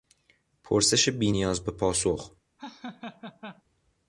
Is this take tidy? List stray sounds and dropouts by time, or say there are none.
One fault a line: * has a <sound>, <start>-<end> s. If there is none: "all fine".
* has a laugh, 2.6-3.6 s